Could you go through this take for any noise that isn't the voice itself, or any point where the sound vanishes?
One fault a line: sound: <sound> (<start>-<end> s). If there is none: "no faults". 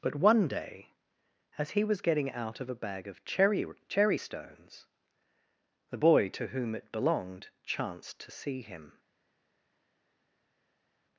no faults